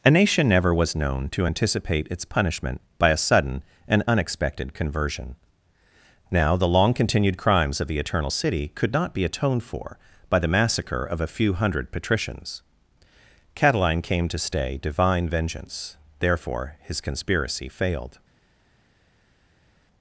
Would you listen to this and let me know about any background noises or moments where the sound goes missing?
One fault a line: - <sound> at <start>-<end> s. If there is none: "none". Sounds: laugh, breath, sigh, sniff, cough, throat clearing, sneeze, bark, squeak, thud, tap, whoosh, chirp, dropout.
none